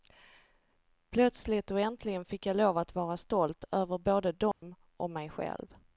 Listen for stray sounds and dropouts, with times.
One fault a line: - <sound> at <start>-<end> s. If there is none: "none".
- dropout at 4.5-4.6 s